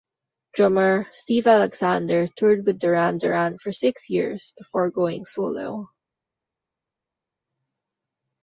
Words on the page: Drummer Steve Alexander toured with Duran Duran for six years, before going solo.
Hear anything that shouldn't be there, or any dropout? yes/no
no